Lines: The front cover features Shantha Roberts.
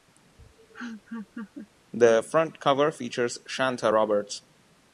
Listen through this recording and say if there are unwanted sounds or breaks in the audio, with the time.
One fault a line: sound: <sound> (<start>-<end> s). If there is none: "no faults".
sound: laugh (0.4-1.7 s)